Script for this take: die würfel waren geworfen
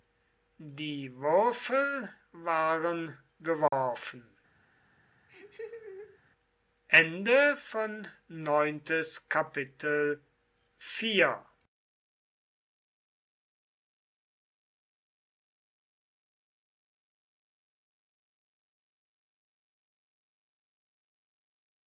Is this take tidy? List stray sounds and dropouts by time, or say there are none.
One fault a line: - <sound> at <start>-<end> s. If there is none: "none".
- dropout at 3.7-3.7 s
- laugh at 5.3-6.2 s